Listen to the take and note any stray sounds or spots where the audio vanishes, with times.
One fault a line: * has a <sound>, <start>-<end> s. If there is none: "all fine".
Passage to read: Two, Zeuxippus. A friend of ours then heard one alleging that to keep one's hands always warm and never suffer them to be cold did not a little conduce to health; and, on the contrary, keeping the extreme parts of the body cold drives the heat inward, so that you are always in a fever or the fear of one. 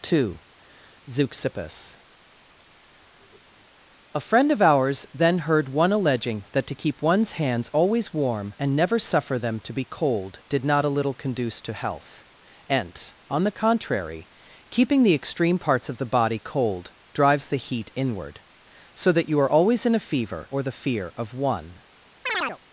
* has a chirp, 22.3-22.6 s